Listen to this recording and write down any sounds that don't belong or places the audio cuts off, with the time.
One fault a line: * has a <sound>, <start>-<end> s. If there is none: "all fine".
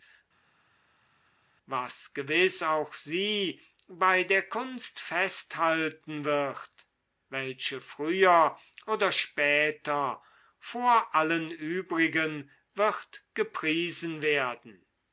all fine